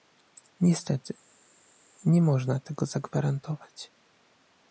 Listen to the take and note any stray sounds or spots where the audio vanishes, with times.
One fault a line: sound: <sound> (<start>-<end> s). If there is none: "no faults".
no faults